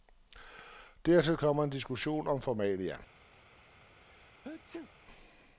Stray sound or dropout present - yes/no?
yes